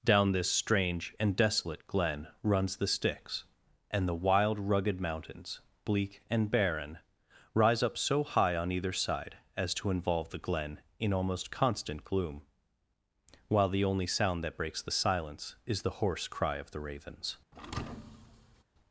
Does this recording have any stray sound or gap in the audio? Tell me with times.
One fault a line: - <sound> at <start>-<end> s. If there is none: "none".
- thud at 17.5-18.6 s